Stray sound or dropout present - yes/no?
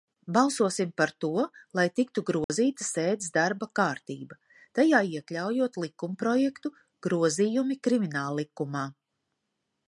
yes